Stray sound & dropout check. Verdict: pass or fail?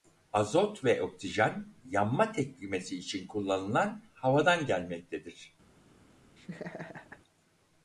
fail